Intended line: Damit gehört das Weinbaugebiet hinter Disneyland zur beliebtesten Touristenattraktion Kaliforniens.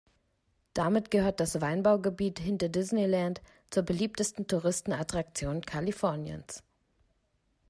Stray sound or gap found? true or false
false